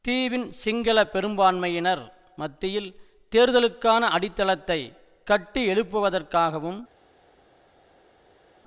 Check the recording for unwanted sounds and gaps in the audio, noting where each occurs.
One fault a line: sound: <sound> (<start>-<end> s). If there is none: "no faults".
no faults